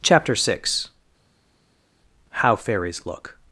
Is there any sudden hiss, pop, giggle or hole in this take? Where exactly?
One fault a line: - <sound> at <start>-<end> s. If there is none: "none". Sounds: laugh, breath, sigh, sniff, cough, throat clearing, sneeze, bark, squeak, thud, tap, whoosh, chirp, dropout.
none